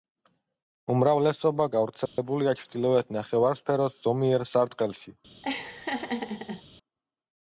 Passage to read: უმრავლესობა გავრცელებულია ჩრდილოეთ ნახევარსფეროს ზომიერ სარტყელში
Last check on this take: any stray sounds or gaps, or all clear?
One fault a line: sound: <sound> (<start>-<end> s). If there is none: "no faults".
sound: dropout (2.1-2.2 s)
sound: laugh (5.4-6.6 s)